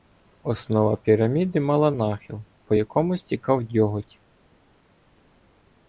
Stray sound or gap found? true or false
false